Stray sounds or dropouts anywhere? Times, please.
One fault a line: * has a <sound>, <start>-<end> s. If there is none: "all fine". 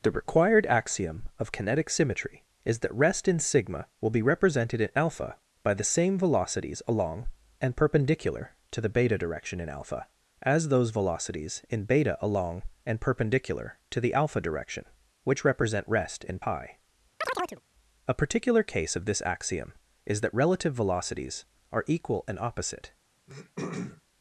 * has a chirp, 17.2-17.6 s
* has a throat clearing, 23.3-24.0 s